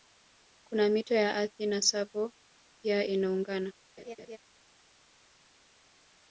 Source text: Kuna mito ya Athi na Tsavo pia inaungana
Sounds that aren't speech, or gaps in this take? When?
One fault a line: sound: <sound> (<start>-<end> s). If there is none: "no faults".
sound: laugh (4.0-4.4 s)